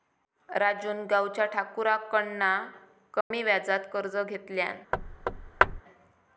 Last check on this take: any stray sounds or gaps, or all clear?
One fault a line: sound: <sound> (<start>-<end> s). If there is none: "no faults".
sound: dropout (3.2-3.3 s)
sound: thud (4.9-5.8 s)